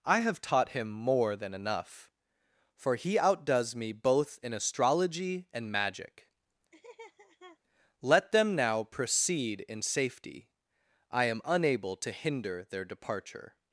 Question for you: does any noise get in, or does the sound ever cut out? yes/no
yes